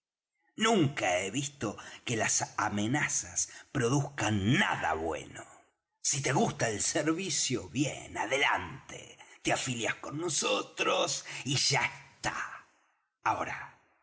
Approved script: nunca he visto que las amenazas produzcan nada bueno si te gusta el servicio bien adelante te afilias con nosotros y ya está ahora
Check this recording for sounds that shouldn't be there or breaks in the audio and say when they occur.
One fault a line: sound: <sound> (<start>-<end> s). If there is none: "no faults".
no faults